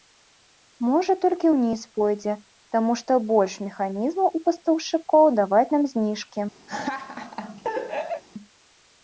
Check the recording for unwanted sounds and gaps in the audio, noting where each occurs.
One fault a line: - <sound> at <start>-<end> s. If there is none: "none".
- laugh at 6.7-8.2 s